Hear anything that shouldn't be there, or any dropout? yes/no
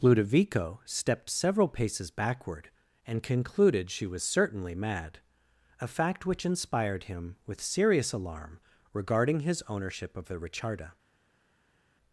no